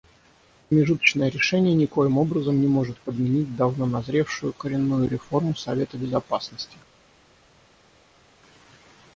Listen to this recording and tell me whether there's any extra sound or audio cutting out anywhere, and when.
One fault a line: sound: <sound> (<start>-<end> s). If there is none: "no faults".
no faults